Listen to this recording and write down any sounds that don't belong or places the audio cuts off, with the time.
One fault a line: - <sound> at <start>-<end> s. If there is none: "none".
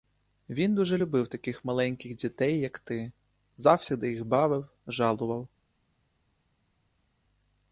none